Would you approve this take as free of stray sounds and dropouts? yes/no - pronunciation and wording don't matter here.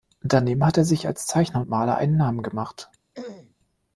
no